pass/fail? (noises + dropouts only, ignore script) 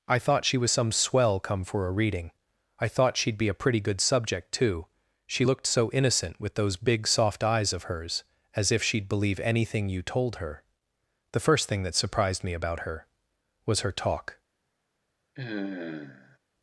fail